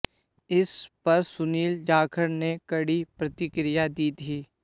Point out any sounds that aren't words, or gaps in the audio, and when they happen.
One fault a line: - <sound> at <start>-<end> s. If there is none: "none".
none